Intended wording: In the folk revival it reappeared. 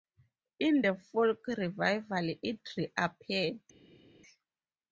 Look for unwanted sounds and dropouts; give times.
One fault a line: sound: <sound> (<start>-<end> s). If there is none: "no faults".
no faults